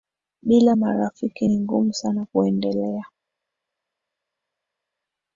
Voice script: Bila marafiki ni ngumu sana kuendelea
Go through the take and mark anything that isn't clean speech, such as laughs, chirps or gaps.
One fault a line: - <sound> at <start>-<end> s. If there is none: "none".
none